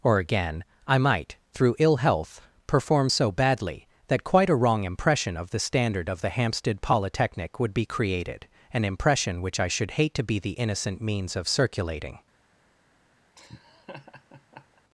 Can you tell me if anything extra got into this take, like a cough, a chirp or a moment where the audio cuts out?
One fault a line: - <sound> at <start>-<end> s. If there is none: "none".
- laugh at 13.4-14.8 s